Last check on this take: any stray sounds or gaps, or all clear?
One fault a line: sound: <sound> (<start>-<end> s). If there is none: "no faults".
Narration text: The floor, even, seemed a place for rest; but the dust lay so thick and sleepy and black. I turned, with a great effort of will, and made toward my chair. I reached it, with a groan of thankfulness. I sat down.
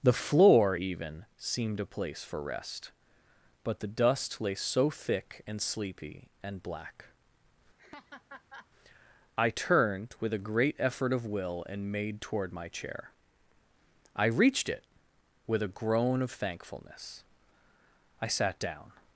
sound: laugh (7.8-8.7 s)